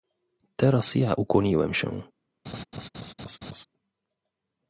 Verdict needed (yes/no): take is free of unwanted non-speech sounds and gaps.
no